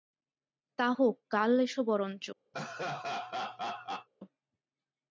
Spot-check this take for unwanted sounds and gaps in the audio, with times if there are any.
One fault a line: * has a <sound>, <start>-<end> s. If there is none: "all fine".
* has a laugh, 2.5-4.1 s